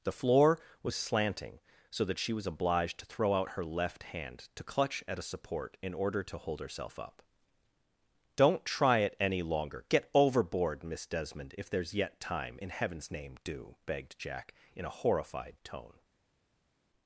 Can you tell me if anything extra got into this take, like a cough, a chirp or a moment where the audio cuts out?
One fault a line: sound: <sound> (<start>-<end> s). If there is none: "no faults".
no faults